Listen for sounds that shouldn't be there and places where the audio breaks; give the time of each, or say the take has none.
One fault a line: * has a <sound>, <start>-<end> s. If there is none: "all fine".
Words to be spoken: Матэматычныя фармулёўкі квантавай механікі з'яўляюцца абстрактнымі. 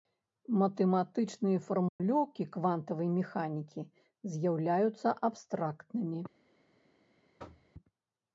* has a dropout, 1.9-2.0 s
* has a thud, 7.4-7.7 s